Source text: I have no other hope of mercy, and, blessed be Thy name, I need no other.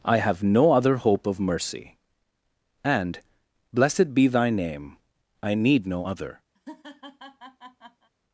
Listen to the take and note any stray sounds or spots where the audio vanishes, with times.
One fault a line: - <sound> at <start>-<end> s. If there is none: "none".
- laugh at 6.5-8.1 s